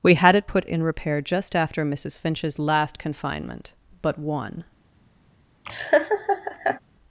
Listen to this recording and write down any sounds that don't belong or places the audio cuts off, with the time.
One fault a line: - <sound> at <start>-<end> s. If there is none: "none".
- laugh at 5.7-6.8 s